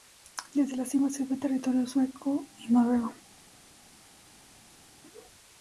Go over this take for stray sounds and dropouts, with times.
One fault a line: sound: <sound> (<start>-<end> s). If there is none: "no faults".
no faults